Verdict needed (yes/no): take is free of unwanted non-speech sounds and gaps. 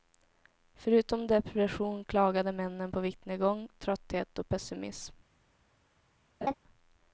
no